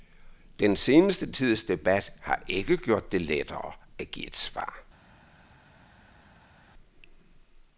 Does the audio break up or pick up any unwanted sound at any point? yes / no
no